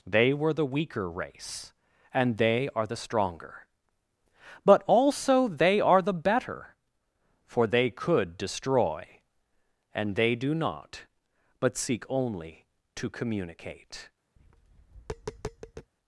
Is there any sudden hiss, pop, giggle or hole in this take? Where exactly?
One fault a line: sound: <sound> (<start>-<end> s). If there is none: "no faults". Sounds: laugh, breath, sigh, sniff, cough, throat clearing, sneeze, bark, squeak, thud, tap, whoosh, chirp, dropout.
sound: tap (14.4-15.9 s)